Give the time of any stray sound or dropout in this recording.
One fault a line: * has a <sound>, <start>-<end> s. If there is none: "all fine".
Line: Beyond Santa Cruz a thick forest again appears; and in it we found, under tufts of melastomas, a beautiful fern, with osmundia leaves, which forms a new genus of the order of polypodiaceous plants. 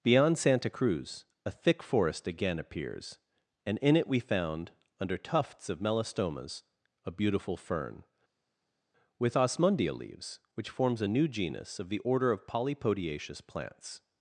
all fine